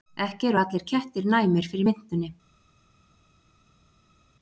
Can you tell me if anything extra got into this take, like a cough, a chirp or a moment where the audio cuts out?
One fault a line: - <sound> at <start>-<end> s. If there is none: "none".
none